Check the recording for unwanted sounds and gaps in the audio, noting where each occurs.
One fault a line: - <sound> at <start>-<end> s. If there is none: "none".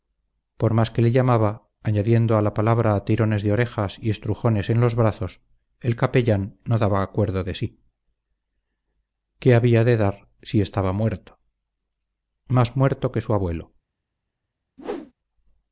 - whoosh at 14.8-15.1 s